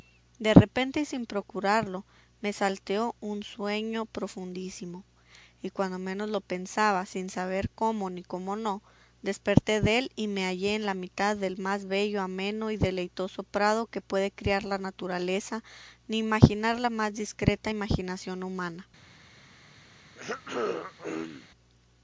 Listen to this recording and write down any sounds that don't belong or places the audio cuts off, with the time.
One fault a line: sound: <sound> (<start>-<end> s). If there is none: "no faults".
sound: throat clearing (20.1-21.5 s)